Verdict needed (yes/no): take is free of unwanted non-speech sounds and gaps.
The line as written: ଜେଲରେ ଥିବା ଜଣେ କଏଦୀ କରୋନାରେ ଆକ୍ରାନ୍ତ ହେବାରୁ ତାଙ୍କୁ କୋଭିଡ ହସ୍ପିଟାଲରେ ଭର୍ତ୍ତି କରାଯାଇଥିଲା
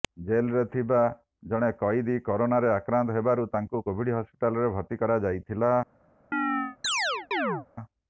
no